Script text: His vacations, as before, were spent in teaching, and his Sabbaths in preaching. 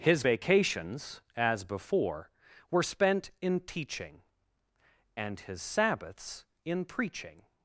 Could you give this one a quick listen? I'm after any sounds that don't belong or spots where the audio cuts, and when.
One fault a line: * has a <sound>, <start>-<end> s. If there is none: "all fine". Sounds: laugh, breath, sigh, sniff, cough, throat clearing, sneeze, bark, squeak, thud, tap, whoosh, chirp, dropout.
all fine